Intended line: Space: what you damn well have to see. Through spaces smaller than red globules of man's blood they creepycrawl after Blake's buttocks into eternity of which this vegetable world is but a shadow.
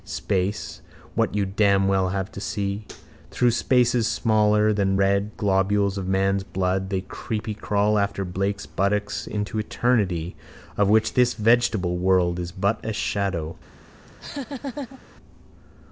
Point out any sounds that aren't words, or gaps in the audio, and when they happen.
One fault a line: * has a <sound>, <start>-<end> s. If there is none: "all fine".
* has a laugh, 14.1-15.0 s